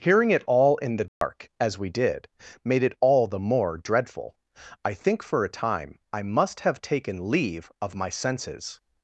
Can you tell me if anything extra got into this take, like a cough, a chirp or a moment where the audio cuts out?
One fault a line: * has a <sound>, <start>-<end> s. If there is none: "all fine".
* has a dropout, 1.1-1.2 s